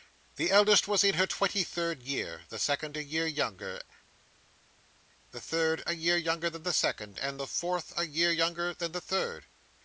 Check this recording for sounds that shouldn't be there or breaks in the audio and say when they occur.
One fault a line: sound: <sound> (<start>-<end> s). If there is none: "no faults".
no faults